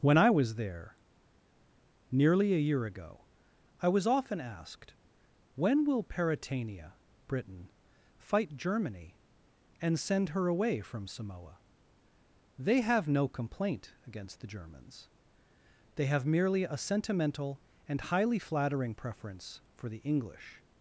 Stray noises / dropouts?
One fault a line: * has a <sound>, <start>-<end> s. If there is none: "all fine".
all fine